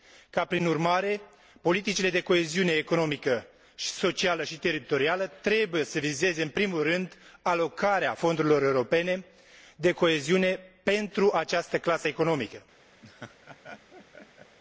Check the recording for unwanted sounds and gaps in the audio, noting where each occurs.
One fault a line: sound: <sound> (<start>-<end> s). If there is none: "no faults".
sound: laugh (13.0-14.6 s)